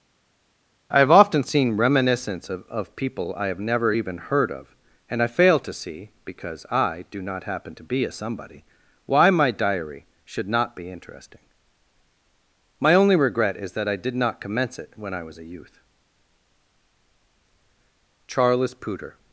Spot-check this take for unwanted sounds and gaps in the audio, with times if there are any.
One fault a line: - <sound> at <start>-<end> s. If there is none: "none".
none